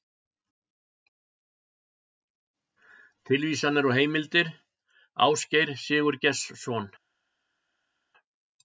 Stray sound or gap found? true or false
false